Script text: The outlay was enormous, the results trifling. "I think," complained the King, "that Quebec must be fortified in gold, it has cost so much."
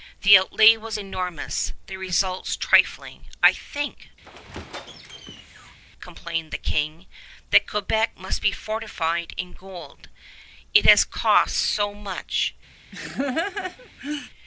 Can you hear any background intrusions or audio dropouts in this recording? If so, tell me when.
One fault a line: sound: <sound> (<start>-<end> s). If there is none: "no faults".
sound: squeak (4.2-5.8 s)
sound: laugh (12.9-14.3 s)